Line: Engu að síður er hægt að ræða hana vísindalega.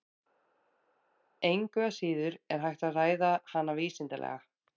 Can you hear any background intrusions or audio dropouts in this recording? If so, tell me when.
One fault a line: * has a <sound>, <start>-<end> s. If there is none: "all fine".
all fine